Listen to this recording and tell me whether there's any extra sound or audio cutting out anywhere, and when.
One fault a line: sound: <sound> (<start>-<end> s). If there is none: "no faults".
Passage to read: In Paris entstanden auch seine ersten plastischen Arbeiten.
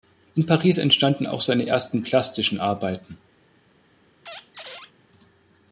sound: squeak (4.3-4.9 s)